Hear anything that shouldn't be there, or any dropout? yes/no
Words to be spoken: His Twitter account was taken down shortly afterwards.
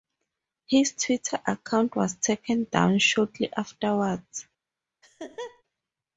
yes